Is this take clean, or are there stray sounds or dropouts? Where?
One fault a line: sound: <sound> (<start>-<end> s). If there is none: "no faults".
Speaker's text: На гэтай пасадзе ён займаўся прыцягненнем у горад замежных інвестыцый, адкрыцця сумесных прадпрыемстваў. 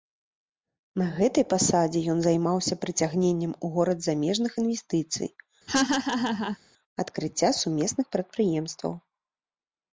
sound: laugh (5.7-6.6 s)